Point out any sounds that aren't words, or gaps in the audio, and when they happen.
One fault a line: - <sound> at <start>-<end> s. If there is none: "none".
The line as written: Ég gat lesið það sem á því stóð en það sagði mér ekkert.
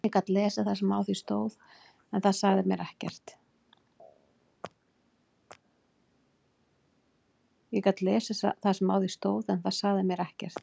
none